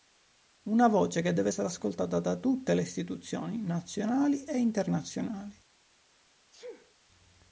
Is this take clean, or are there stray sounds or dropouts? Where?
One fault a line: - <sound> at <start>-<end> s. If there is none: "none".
- sneeze at 6.5-7.0 s